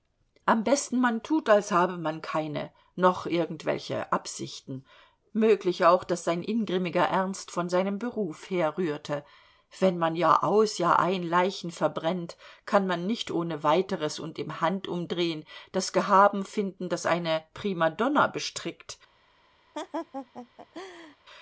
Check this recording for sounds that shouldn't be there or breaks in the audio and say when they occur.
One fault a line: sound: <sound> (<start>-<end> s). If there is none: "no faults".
sound: laugh (19.7-21.2 s)